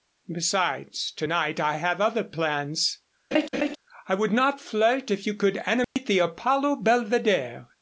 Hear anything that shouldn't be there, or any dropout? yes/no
yes